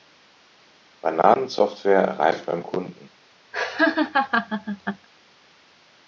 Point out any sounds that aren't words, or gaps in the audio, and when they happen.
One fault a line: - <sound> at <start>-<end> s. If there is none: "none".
- laugh at 3.5-5.1 s